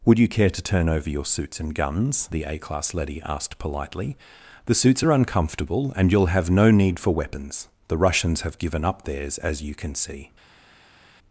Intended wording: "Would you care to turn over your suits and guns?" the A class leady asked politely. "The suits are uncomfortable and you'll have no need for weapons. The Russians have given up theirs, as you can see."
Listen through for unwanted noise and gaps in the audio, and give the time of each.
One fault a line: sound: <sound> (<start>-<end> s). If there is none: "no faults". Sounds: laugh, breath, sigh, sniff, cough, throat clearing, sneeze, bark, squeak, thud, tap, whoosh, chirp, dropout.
no faults